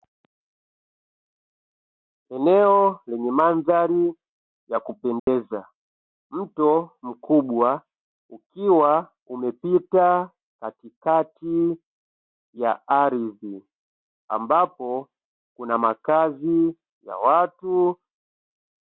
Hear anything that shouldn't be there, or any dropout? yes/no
yes